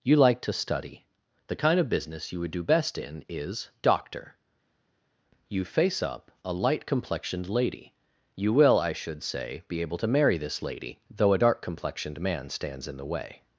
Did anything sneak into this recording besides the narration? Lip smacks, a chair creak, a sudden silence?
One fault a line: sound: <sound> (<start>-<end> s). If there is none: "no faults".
no faults